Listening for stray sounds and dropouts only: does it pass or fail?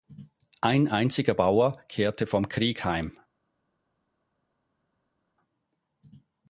pass